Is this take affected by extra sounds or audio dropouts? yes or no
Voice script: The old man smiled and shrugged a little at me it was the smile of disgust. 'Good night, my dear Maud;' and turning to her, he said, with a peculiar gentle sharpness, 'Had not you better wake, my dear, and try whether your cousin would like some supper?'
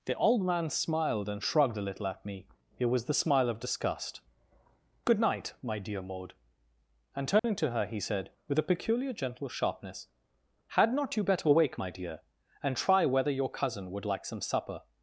yes